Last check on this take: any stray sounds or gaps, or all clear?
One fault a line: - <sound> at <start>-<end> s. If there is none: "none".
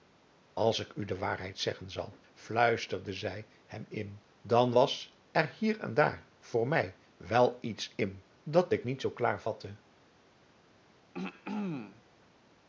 - throat clearing at 11.1-12.0 s